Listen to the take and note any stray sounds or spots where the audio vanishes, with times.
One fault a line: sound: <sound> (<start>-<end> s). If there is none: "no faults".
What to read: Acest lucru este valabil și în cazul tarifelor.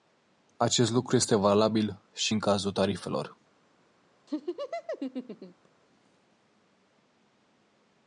sound: laugh (4.3-5.7 s)